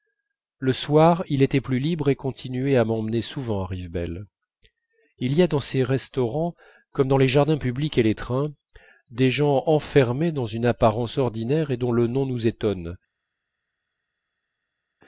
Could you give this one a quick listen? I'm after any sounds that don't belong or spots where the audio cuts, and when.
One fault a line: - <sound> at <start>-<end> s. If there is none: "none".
none